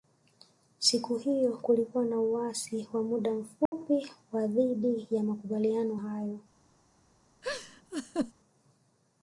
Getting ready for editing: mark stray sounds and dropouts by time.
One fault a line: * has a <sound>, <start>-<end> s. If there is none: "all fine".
* has a dropout, 3.7-3.7 s
* has a laugh, 7.4-8.3 s